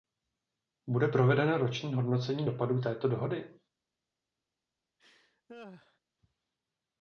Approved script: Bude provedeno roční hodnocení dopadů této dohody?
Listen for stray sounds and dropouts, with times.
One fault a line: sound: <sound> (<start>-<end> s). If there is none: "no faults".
sound: laugh (5.0-6.0 s)